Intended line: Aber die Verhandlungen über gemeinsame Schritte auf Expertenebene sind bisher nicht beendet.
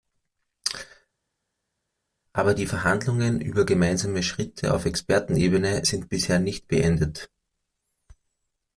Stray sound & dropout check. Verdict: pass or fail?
pass